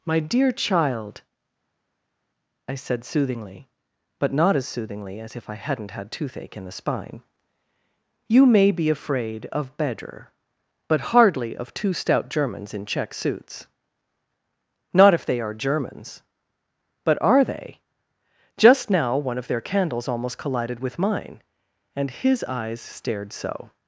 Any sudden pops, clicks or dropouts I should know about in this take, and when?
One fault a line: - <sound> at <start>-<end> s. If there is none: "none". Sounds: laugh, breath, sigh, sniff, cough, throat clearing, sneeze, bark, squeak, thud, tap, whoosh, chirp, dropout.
none